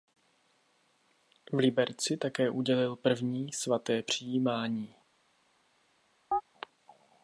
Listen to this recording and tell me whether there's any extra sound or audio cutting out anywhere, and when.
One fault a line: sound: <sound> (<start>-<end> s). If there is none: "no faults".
sound: chirp (6.3-6.4 s)